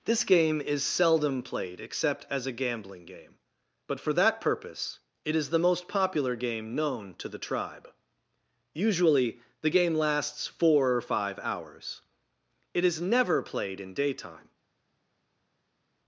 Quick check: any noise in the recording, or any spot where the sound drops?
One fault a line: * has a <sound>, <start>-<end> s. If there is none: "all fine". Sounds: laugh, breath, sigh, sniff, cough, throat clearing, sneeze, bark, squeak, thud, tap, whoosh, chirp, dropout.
all fine